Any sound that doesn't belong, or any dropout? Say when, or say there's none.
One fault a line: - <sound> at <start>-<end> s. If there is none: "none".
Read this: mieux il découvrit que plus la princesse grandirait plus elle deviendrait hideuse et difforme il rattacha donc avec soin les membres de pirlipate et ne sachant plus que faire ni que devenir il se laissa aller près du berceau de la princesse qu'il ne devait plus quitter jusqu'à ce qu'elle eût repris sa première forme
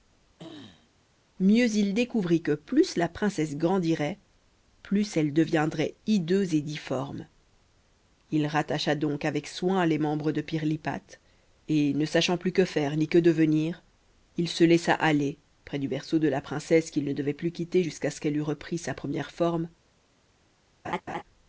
- throat clearing at 0.4-0.9 s
- laugh at 20.8-21.2 s